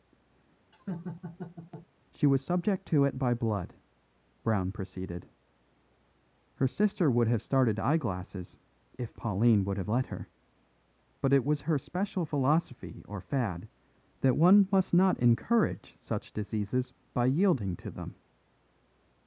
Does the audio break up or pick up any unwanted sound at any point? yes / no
yes